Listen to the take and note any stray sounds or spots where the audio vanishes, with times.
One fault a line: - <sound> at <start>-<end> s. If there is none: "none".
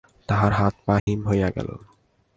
- dropout at 1.0-1.1 s